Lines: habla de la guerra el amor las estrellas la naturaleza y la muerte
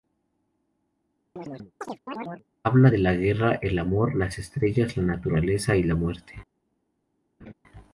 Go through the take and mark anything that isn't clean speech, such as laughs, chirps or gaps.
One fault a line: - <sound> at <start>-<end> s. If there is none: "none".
- chirp at 1.4-2.4 s
- laugh at 7.4-7.5 s